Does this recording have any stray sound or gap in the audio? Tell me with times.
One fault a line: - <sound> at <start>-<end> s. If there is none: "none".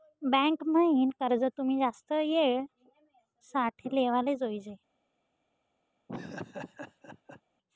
- laugh at 6.1-7.4 s